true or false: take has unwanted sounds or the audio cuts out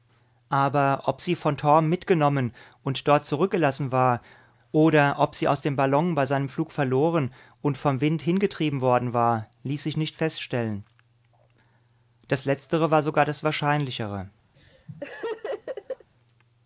true